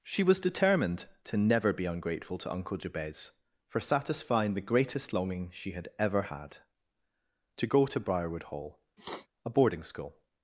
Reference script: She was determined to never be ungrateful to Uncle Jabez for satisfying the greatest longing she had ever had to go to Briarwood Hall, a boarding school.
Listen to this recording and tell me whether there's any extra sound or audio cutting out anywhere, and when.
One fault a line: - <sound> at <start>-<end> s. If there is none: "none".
- sniff at 9.0-9.3 s